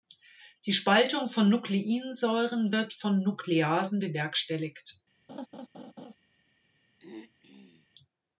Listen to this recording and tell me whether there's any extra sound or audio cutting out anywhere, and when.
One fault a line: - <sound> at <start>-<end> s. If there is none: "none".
- laugh at 5.3-6.2 s
- throat clearing at 7.0-7.9 s